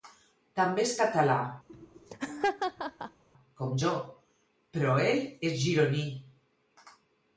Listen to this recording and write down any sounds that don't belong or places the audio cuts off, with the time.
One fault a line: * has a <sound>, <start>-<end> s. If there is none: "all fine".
* has a laugh, 1.7-3.2 s